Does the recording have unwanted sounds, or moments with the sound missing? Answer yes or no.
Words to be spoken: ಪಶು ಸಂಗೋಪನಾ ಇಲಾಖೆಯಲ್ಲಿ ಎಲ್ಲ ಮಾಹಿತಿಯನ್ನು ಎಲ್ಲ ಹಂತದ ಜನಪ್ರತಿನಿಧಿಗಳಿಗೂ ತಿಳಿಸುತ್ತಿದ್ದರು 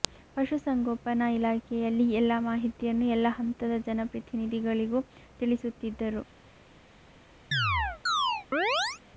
yes